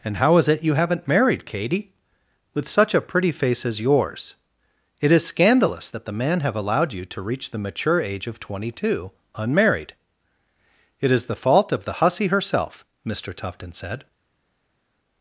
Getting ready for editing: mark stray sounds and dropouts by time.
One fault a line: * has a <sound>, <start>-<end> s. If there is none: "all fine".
all fine